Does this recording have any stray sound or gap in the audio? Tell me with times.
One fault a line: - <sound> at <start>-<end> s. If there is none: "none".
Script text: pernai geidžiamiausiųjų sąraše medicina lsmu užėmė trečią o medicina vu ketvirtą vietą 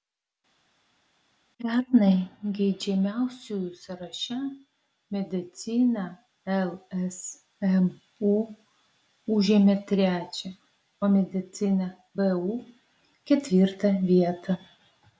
none